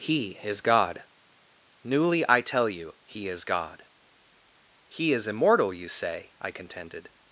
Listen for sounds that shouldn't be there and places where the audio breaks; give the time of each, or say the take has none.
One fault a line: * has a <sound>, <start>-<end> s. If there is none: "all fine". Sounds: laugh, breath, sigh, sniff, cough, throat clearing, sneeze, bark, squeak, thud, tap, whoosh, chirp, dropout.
all fine